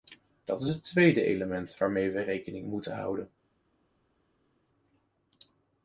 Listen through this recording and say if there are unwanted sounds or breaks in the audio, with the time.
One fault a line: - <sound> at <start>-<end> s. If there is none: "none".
none